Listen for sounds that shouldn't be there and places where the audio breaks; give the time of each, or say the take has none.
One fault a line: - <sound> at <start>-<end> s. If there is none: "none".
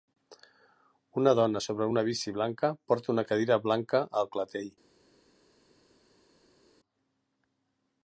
none